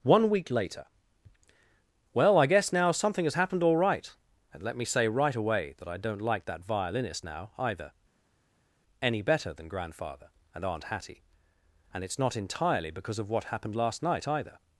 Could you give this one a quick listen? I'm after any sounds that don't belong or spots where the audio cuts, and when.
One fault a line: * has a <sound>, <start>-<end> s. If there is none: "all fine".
all fine